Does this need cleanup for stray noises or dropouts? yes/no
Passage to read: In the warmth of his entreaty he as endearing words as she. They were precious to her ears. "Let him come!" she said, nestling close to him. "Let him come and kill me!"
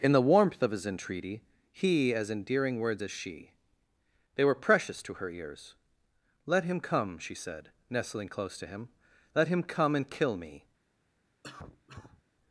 yes